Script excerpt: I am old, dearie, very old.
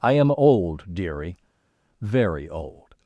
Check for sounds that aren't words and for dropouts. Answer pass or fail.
pass